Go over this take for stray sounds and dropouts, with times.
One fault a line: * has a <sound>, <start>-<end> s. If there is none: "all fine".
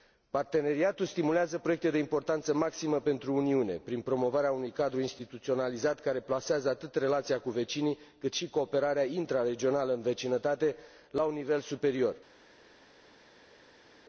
all fine